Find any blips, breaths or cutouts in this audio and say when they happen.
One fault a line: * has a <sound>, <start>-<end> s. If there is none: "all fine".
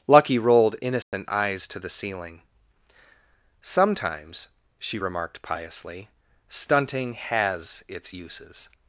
* has a dropout, 1.0-1.1 s